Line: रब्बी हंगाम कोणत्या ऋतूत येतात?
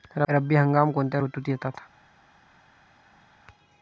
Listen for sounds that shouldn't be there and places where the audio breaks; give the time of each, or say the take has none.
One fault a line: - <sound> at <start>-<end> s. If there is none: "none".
none